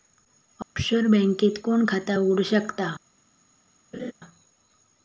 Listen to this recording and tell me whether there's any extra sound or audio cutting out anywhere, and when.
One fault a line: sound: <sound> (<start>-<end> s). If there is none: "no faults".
sound: dropout (0.6-0.8 s)
sound: laugh (3.9-4.1 s)